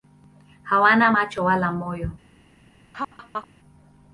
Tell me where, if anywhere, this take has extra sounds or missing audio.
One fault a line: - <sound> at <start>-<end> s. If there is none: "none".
- laugh at 2.9-3.5 s